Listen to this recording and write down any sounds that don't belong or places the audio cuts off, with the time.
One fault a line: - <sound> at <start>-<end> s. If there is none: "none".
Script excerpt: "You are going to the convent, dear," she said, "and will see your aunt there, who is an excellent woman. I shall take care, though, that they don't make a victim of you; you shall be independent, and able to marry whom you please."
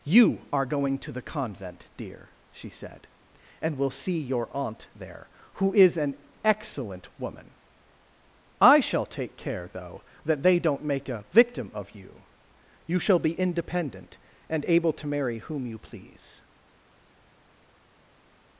none